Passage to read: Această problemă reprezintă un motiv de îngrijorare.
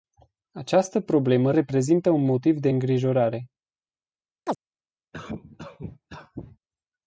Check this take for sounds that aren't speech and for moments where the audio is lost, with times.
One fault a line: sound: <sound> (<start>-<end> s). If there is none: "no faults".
sound: chirp (4.5-4.6 s)
sound: cough (5.1-6.6 s)